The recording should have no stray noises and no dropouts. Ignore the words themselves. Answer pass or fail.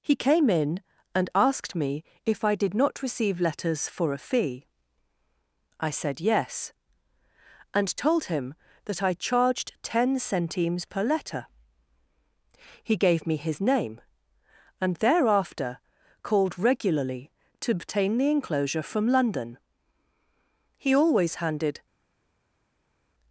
pass